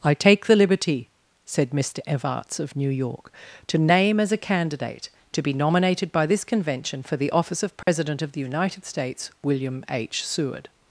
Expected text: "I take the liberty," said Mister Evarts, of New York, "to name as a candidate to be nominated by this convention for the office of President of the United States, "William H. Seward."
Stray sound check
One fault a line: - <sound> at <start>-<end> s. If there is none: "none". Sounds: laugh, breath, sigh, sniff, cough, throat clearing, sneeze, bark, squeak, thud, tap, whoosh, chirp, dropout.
- dropout at 7.8-7.9 s